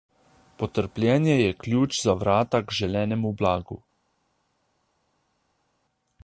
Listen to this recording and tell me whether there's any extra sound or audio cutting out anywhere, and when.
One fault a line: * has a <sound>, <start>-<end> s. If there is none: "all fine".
all fine